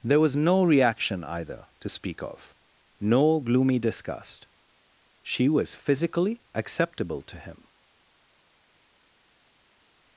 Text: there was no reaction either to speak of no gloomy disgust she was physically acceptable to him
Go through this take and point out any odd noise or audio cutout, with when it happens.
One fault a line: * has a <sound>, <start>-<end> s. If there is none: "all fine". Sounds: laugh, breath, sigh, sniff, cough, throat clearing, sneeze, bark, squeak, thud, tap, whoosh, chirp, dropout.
all fine